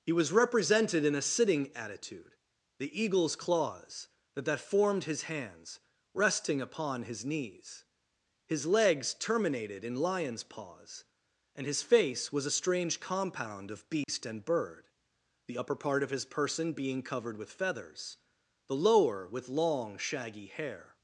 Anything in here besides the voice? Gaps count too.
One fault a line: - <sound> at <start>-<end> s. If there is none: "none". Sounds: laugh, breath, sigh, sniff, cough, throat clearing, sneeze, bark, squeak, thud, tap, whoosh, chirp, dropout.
- dropout at 14.0-14.1 s